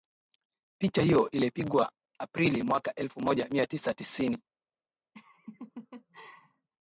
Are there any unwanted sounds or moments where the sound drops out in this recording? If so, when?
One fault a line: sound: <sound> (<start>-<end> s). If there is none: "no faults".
sound: laugh (5.1-6.7 s)